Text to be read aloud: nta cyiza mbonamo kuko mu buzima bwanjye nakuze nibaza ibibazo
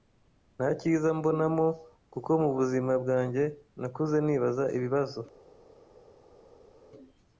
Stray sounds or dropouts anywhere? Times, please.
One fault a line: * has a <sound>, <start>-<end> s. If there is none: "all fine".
all fine